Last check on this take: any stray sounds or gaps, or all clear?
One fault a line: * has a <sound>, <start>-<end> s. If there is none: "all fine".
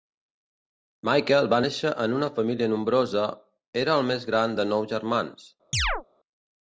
* has a chirp, 5.7-6.0 s